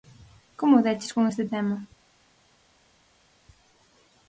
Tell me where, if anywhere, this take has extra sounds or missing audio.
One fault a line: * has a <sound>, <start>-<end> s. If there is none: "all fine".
all fine